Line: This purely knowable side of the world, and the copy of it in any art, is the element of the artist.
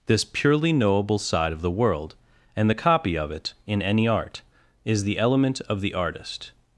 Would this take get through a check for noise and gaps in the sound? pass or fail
pass